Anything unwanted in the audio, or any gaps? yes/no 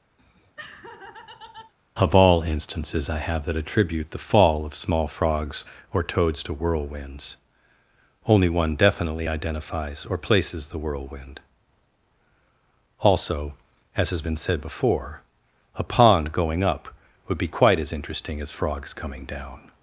yes